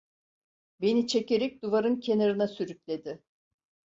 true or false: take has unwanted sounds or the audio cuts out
false